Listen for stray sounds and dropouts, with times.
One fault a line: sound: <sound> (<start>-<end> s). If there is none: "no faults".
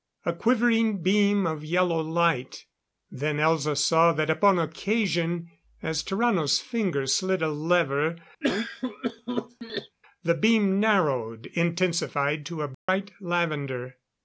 sound: cough (8.4-10.0 s)
sound: dropout (12.7-12.9 s)